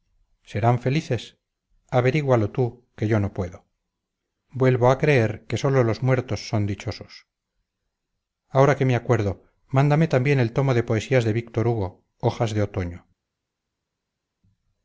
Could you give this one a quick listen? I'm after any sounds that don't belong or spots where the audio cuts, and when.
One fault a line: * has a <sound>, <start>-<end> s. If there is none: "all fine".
all fine